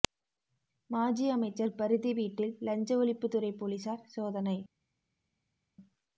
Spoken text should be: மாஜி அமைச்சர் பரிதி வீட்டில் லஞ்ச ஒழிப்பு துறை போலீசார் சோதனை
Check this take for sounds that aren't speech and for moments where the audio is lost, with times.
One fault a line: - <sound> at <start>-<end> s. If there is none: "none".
none